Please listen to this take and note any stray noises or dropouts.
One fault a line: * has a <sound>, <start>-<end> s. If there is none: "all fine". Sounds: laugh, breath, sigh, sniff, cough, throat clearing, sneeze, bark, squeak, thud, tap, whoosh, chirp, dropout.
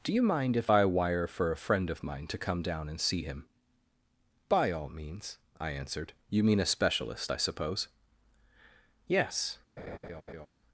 * has a laugh, 9.8-10.5 s